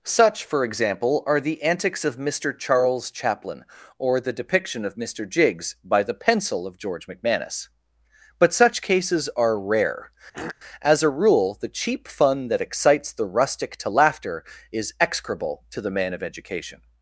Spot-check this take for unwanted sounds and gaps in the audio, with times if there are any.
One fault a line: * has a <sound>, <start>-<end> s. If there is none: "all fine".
* has a throat clearing, 10.3-10.6 s